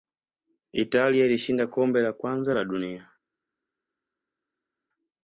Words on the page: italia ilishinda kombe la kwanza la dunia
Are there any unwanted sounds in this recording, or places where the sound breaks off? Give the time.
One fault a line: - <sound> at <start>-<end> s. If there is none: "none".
none